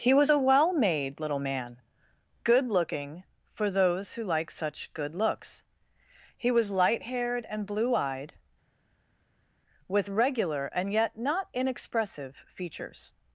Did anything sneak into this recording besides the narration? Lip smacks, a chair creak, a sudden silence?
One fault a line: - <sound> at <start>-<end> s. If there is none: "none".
none